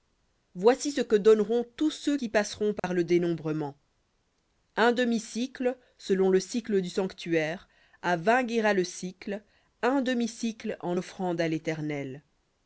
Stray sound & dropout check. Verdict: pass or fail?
fail